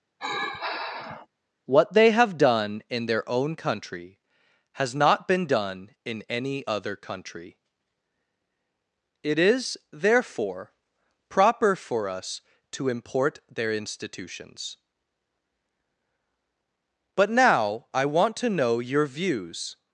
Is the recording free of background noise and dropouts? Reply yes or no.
no